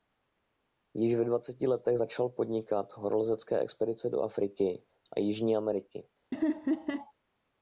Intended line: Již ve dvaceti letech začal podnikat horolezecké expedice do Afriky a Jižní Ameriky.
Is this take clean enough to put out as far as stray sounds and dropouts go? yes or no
no